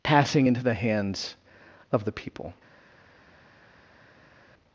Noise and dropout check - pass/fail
pass